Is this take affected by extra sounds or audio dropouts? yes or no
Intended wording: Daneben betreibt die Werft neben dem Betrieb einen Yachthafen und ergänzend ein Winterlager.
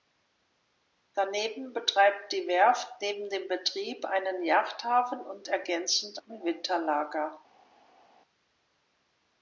no